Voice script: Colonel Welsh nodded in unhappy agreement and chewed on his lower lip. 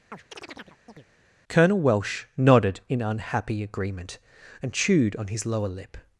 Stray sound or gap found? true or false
true